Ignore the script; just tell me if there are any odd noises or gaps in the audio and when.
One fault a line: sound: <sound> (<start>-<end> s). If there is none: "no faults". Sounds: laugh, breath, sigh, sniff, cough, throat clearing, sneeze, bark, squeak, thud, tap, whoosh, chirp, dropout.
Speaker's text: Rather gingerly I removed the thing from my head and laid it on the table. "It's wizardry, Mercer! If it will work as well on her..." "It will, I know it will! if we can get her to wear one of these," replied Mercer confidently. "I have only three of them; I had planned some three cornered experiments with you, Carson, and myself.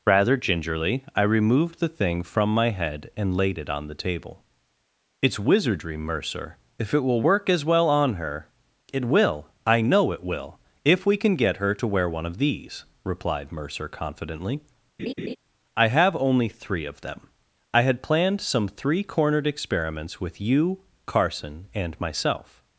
sound: laugh (15.0-15.4 s)